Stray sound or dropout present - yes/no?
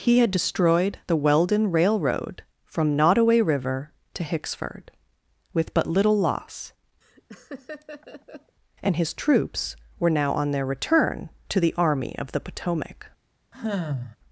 yes